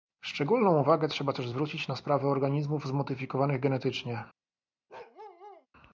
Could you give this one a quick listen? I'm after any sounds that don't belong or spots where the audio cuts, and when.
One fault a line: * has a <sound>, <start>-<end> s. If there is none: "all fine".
* has a bark, 4.9-5.7 s